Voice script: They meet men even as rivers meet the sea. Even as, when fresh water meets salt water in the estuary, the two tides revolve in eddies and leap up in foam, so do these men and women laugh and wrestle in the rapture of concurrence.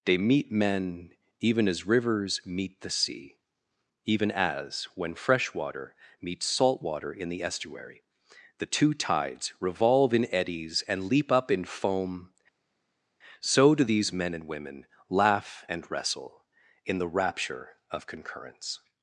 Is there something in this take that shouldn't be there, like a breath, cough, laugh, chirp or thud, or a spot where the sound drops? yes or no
no